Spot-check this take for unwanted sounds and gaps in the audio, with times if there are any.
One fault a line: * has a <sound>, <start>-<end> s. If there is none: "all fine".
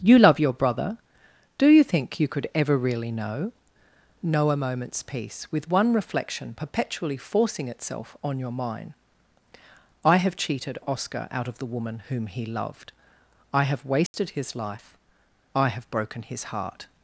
* has a dropout, 14.1-14.1 s